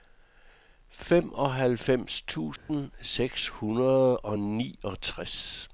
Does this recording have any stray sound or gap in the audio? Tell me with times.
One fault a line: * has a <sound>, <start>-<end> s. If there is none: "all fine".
* has a dropout, 2.6-2.7 s